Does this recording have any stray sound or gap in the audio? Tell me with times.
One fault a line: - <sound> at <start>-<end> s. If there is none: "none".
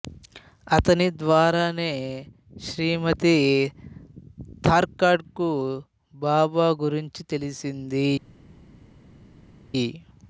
none